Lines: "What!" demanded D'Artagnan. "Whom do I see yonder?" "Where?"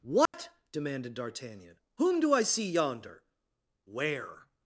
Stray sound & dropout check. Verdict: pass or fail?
fail